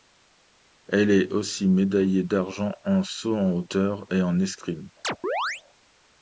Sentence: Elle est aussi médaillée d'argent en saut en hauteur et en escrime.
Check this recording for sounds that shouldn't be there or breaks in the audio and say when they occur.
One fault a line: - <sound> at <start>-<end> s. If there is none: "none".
- chirp at 5.0-5.6 s